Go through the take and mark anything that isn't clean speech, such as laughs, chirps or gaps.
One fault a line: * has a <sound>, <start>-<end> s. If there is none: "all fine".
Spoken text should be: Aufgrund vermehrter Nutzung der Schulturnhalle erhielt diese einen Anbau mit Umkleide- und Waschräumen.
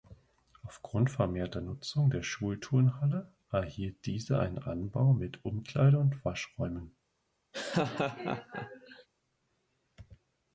* has a laugh, 7.5-9.1 s